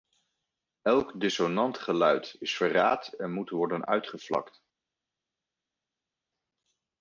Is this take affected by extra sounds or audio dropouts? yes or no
no